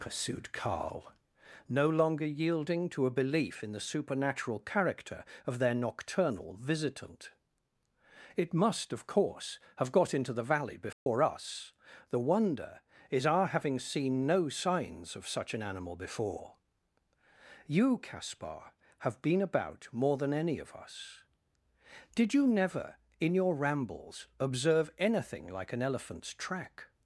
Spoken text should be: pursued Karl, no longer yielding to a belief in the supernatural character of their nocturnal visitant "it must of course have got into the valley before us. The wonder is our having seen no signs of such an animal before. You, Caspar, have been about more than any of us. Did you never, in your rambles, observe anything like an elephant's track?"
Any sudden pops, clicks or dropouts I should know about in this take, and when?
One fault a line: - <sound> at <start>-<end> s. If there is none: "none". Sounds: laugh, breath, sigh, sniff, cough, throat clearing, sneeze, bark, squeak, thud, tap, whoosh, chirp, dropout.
- dropout at 10.9-11.1 s